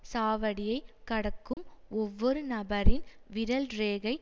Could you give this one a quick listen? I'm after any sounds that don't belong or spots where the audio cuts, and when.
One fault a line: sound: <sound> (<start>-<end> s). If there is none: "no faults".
sound: dropout (1.5-1.6 s)